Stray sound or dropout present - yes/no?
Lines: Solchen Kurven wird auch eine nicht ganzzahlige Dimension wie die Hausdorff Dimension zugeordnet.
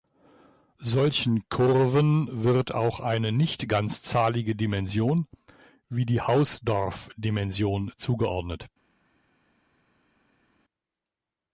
no